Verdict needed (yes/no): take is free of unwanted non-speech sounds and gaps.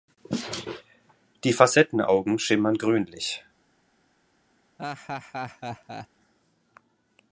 no